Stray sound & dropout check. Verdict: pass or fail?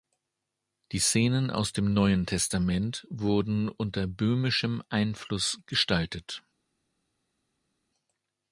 pass